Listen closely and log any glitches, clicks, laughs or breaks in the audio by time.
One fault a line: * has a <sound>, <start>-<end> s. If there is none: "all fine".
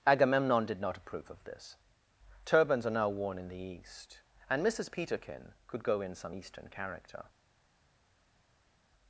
all fine